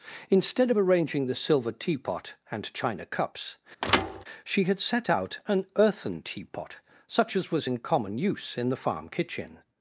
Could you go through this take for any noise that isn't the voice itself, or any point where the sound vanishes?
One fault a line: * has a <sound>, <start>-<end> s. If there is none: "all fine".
* has a thud, 3.8-4.2 s